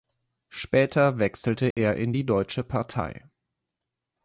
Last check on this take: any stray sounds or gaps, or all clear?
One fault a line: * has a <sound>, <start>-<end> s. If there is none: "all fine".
* has a dropout, 1.7-1.8 s